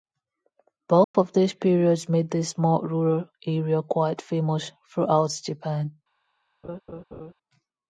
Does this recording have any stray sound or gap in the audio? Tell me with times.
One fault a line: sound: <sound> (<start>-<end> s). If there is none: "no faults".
sound: dropout (1.0-1.1 s)
sound: laugh (6.6-7.3 s)